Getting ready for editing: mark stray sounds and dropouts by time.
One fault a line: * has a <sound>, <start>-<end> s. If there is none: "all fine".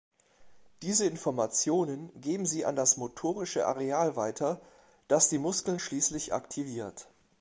all fine